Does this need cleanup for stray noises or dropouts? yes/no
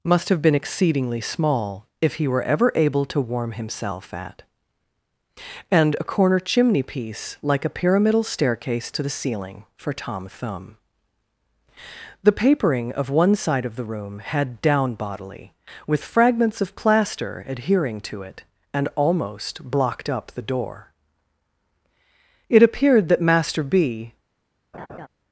yes